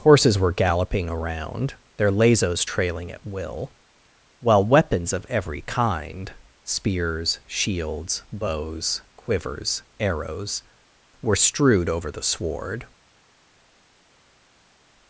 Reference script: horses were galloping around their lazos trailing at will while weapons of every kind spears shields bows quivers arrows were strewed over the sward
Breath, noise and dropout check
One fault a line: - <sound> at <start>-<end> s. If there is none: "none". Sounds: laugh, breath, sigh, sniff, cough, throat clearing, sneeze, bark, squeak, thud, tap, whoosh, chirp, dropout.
none